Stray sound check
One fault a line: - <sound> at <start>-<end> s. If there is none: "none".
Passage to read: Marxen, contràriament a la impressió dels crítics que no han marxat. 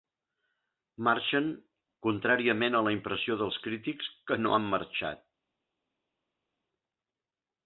none